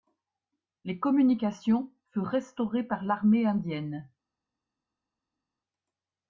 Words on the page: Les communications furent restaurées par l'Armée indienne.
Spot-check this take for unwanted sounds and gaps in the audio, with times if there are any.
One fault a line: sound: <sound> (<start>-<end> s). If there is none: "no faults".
no faults